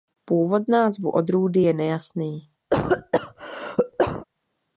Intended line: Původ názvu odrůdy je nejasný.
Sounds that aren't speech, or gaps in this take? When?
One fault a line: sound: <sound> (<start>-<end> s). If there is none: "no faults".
sound: cough (2.7-4.2 s)